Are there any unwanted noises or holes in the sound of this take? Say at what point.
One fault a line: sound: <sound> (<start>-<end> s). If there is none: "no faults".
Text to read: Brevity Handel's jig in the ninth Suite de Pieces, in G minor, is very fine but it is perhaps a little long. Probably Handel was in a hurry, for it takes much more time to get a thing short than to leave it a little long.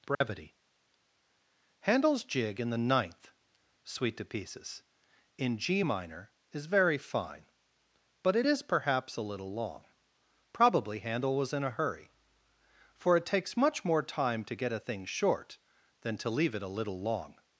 sound: dropout (0.1-0.2 s)